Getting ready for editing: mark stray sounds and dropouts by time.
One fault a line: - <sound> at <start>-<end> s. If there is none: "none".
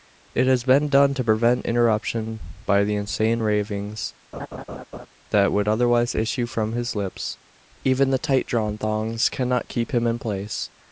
- laugh at 4.3-5.1 s